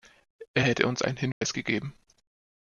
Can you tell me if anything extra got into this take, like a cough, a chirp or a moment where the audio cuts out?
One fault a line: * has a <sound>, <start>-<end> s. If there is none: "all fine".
* has a dropout, 1.3-1.4 s